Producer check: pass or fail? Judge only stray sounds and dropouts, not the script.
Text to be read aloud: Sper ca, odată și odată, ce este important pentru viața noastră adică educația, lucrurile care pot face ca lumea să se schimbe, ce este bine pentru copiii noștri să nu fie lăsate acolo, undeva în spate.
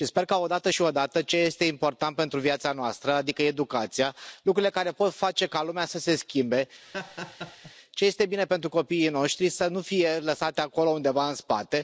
fail